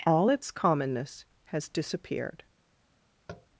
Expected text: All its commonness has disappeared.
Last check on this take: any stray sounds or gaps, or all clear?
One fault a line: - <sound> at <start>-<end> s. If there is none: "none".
- tap at 3.3-3.5 s